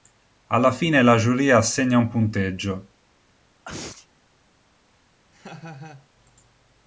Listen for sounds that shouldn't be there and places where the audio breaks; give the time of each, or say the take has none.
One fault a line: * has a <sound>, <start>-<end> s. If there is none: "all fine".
* has a sneeze, 3.6-4.1 s
* has a laugh, 5.3-6.1 s